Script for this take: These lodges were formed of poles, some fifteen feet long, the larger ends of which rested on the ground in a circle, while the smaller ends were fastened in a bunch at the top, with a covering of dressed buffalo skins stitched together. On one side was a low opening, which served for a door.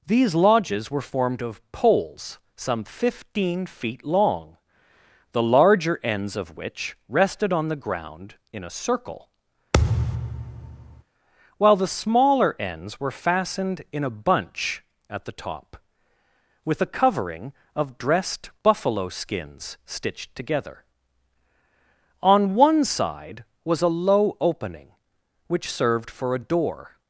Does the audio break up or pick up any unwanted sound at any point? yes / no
yes